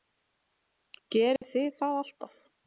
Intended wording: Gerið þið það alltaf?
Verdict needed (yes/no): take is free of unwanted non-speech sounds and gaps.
no